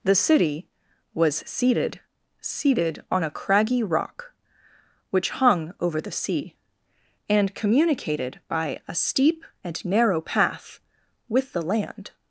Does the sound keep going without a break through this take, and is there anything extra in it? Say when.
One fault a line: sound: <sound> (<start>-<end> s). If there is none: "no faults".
no faults